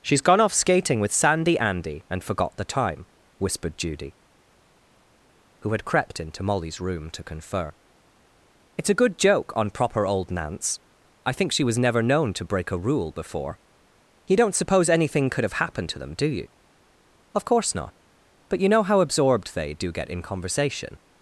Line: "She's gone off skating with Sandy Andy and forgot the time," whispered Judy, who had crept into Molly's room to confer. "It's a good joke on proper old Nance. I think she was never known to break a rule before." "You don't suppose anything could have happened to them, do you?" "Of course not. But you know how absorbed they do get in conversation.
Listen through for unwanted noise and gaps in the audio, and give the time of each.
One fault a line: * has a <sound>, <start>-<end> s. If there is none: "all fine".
all fine